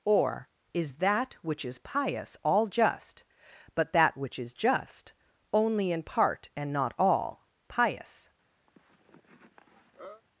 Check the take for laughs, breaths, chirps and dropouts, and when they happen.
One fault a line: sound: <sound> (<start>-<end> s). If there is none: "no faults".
sound: cough (8.7-10.2 s)